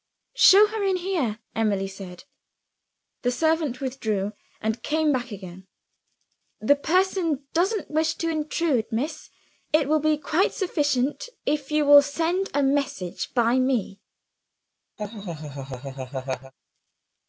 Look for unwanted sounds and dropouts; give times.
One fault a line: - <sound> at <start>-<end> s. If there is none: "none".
- laugh at 15.0-16.5 s